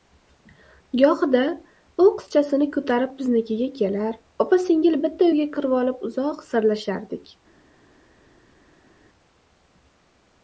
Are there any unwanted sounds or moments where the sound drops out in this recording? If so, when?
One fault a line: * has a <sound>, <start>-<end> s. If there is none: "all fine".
all fine